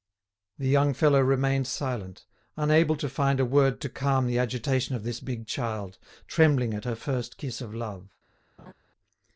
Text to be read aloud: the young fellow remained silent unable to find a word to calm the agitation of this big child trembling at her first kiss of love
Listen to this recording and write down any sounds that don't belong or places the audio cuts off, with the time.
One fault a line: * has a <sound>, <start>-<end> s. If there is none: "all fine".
* has a laugh, 8.6-8.7 s